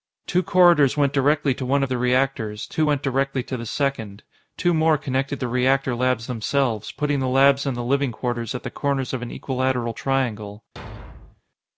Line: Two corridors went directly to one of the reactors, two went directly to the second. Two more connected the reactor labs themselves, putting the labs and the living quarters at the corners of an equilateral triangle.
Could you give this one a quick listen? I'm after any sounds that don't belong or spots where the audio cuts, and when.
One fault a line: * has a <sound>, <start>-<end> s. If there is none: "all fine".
* has a thud, 10.8-11.4 s